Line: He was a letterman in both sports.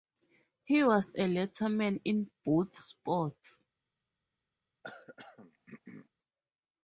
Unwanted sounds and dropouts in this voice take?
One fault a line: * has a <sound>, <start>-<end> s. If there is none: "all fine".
* has a throat clearing, 4.8-6.1 s